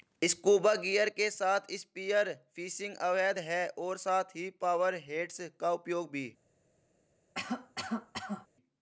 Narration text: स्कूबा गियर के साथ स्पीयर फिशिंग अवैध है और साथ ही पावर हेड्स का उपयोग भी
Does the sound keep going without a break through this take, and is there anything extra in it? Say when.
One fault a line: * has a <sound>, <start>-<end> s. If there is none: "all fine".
* has a cough, 7.3-8.5 s